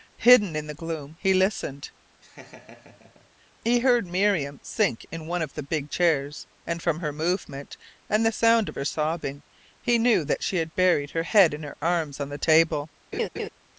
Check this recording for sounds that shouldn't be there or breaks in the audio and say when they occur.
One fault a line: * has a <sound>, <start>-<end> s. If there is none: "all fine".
* has a laugh, 2.2-3.3 s
* has a laugh, 13.1-13.5 s